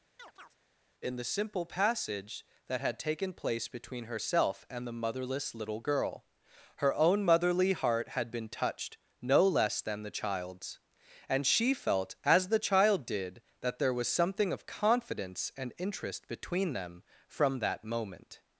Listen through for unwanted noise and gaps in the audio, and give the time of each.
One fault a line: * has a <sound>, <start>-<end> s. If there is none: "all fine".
* has a chirp, 0.2-0.6 s